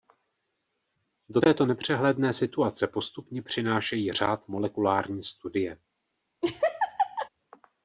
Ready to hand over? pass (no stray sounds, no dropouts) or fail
fail